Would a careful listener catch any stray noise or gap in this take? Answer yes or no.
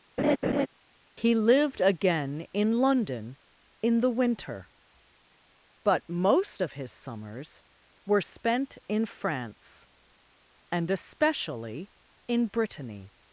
yes